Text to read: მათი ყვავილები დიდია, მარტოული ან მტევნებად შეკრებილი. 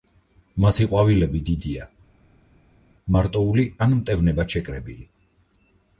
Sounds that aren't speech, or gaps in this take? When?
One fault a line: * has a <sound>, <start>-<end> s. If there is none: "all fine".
all fine